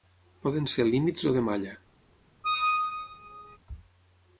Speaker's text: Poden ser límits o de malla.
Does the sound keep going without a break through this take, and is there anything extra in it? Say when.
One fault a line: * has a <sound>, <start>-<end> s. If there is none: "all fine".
* has a squeak, 2.4-3.6 s